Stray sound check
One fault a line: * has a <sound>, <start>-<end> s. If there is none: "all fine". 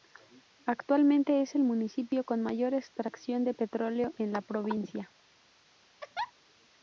* has a laugh, 6.0-6.3 s